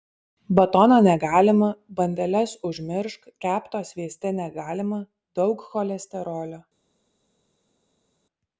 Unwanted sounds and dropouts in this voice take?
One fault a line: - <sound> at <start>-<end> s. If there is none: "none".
none